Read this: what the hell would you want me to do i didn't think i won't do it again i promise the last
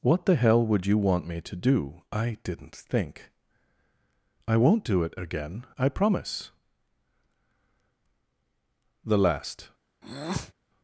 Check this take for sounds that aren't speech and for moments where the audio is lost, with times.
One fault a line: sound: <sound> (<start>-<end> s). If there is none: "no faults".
sound: breath (10.0-10.5 s)